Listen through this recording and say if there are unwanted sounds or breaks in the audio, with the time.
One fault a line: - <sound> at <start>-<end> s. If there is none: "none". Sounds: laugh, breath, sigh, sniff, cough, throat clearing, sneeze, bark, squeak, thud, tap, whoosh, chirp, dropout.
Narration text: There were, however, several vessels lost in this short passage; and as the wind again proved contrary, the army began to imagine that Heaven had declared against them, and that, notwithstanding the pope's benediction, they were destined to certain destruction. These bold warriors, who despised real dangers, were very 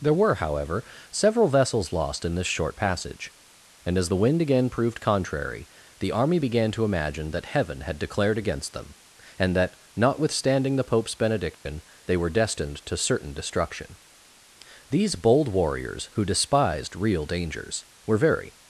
- dropout at 11.5-11.7 s